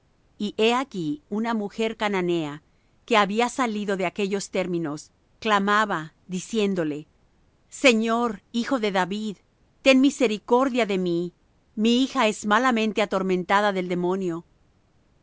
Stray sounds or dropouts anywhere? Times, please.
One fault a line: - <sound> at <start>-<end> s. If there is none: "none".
none